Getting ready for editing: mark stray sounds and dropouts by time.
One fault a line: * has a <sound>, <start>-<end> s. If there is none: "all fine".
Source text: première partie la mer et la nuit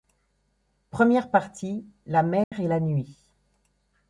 * has a dropout, 2.4-2.5 s